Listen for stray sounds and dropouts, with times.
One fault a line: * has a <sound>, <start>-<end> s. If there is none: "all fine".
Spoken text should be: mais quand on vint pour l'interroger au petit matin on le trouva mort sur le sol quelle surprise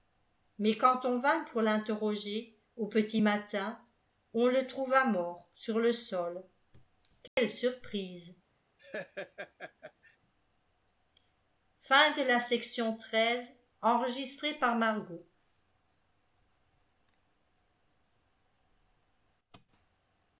* has a dropout, 7.3-7.4 s
* has a laugh, 8.8-10.2 s